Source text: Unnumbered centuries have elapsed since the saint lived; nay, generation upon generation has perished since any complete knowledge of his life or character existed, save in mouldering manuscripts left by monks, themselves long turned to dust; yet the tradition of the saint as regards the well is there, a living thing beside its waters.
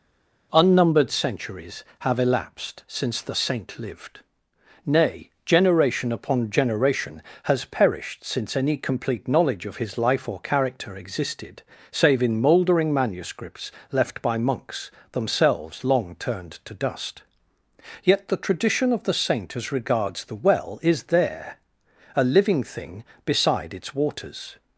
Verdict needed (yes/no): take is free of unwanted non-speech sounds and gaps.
yes